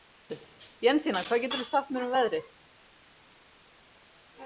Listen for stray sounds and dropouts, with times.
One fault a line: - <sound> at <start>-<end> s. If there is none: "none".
none